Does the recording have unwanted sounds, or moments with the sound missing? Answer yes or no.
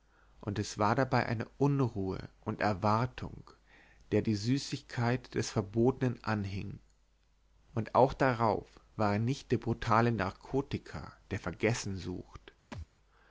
yes